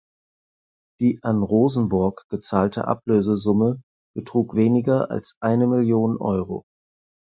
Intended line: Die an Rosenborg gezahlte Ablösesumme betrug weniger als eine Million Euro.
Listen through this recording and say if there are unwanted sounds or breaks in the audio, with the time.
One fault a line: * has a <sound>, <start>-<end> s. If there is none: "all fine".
all fine